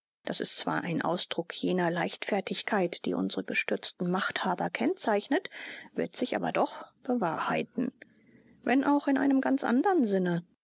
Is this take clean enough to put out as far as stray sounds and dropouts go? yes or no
yes